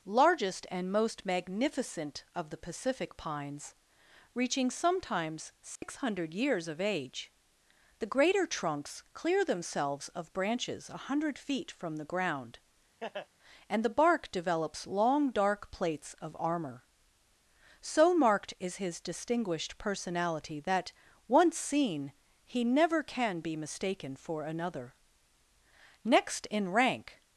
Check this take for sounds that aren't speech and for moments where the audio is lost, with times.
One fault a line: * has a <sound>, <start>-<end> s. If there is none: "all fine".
* has a dropout, 5.8-5.8 s
* has a laugh, 13.0-13.3 s